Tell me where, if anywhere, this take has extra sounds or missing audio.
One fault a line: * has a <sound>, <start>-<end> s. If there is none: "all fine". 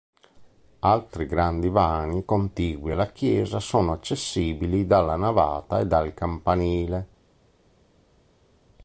all fine